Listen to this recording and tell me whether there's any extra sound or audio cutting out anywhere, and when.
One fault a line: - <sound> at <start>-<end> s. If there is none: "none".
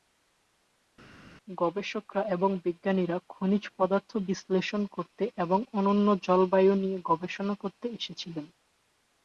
none